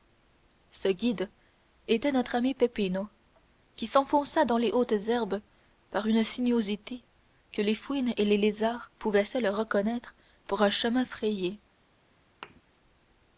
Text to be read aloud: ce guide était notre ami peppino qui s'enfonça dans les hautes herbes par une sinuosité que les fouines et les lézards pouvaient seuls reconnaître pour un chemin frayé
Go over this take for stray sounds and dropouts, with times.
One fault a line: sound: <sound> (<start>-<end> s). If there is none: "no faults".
sound: thud (12.4-12.6 s)